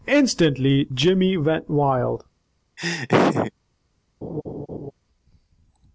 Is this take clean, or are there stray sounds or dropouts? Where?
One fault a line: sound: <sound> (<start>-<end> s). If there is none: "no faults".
sound: laugh (2.8-3.5 s)
sound: laugh (4.2-4.9 s)